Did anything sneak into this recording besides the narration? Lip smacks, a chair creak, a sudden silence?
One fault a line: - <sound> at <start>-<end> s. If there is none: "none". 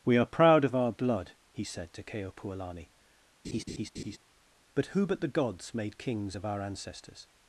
- laugh at 3.4-4.2 s